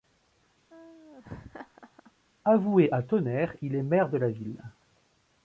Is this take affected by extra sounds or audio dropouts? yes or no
yes